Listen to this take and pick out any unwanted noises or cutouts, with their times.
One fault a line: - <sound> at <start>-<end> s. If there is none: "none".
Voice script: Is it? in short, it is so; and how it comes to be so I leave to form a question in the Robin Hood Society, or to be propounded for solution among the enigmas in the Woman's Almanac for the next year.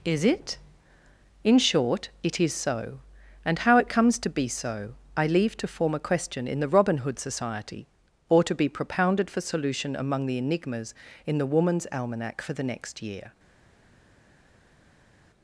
none